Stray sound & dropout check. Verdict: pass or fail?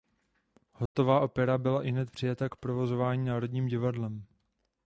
fail